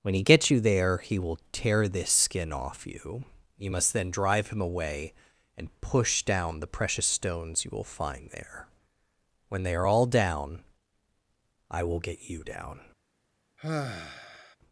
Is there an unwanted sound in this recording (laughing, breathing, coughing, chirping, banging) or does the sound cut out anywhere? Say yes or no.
yes